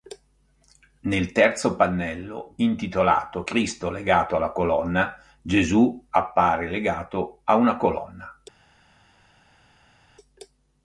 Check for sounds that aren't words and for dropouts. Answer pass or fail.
pass